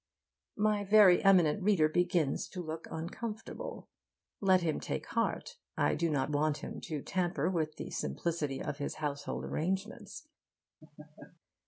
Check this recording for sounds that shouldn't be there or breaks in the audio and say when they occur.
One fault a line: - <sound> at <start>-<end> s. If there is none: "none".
- laugh at 10.8-11.4 s